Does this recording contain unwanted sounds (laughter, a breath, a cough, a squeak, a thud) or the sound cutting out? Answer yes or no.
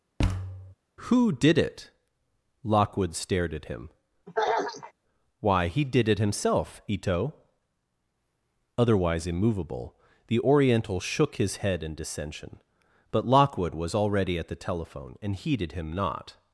yes